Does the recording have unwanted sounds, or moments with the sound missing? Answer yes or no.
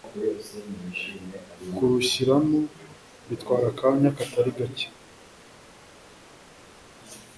no